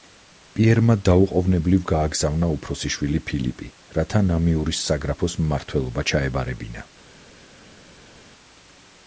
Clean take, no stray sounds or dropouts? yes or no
yes